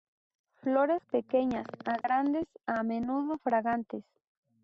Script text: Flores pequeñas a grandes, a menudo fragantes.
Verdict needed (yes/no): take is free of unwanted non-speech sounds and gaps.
no